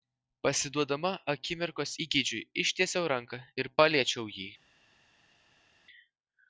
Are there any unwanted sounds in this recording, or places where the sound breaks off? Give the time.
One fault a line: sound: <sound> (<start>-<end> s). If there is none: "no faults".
no faults